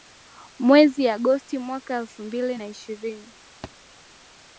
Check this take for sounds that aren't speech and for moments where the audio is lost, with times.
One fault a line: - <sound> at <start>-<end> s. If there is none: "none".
- thud at 3.6-3.8 s